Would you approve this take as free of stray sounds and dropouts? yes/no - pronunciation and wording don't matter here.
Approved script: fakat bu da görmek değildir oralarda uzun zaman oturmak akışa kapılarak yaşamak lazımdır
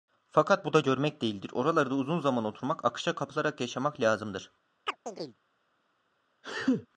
no